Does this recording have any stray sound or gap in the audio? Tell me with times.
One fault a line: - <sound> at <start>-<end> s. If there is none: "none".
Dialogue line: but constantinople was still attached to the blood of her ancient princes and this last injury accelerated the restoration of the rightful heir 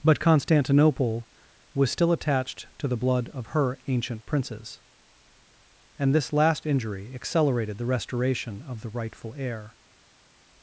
none